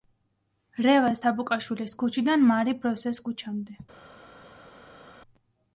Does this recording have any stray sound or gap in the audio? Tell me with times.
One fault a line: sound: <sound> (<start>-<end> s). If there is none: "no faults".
no faults